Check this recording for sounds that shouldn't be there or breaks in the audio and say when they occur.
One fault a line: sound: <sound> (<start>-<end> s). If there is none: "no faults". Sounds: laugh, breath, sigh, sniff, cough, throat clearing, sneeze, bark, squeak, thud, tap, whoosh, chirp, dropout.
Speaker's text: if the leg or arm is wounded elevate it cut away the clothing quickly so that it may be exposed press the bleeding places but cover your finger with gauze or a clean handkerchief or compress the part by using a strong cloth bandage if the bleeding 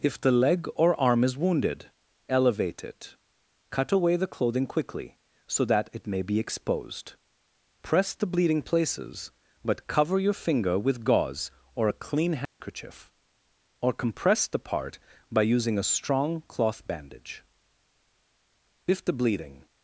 sound: dropout (12.5-12.6 s)